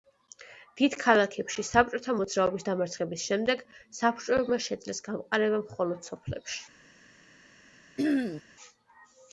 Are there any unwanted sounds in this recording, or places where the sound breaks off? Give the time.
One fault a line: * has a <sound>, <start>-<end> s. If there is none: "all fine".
* has a throat clearing, 8.0-8.4 s